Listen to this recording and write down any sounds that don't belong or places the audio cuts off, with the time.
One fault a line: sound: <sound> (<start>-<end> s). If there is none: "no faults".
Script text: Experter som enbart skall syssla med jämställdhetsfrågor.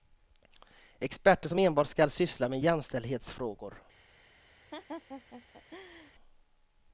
sound: laugh (4.7-6.1 s)